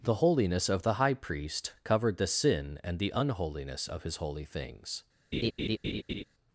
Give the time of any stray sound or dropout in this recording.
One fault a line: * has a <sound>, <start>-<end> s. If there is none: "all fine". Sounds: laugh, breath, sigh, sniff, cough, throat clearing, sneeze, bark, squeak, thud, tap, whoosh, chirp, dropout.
* has a laugh, 5.3-6.2 s